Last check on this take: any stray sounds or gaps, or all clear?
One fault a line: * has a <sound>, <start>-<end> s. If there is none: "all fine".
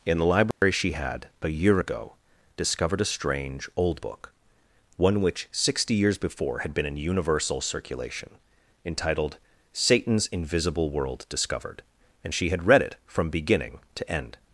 * has a dropout, 0.5-0.6 s